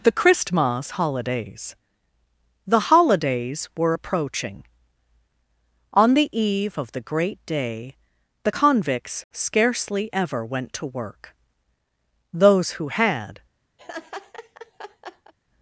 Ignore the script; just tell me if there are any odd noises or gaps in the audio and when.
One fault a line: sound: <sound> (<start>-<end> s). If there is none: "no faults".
sound: laugh (13.8-15.3 s)